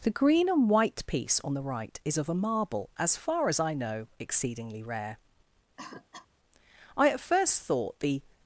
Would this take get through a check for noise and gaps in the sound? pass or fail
fail